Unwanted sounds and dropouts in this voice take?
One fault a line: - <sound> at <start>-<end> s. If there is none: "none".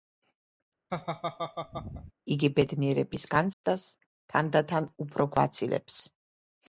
- laugh at 0.9-2.1 s
- dropout at 3.5-3.6 s